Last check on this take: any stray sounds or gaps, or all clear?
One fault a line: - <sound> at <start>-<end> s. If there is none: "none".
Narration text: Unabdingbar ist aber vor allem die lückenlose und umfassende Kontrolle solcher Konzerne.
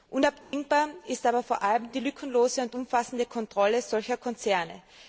- dropout at 0.4-0.5 s